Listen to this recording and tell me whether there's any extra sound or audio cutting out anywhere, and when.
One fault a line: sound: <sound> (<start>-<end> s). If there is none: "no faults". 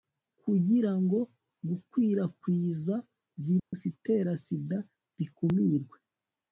sound: dropout (3.6-3.7 s)